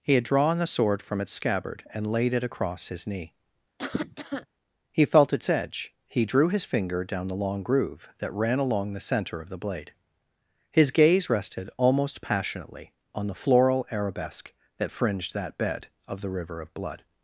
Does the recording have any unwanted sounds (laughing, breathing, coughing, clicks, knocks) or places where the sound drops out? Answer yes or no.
yes